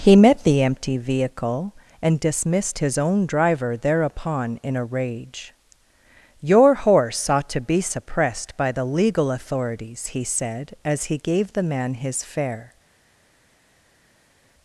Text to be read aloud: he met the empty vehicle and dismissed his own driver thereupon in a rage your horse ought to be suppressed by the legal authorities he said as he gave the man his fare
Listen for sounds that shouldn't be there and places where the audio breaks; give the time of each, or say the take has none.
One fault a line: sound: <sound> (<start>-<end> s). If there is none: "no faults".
no faults